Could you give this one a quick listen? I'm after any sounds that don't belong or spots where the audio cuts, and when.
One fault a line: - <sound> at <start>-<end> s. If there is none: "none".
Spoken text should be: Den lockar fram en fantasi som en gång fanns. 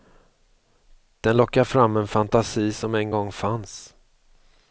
none